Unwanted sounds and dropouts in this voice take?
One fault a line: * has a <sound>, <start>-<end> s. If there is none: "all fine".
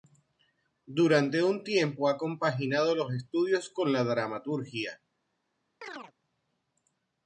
* has a chirp, 5.8-6.1 s